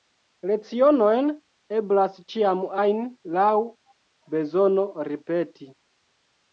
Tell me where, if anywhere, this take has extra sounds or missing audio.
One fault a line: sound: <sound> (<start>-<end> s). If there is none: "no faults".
no faults